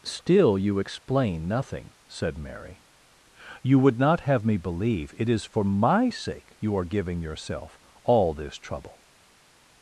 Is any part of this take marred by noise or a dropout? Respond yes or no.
no